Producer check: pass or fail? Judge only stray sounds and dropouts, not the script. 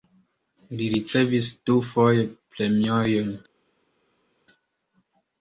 pass